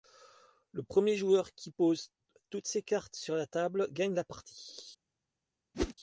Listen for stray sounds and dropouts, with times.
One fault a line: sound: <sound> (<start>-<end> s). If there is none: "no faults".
sound: whoosh (5.7-5.9 s)